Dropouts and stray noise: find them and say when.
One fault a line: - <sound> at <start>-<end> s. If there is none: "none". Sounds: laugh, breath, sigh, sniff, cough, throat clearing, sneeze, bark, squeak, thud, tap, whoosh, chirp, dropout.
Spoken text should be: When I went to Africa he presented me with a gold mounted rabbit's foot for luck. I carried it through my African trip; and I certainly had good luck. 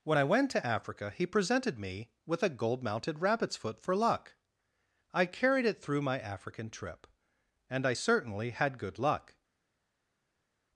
none